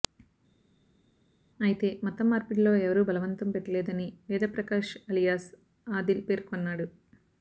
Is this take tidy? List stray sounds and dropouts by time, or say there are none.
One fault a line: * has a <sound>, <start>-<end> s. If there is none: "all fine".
all fine